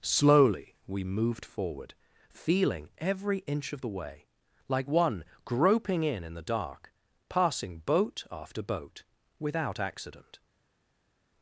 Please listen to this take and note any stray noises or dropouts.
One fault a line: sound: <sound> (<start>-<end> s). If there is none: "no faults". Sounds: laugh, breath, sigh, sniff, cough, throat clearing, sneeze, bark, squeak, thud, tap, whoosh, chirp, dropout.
no faults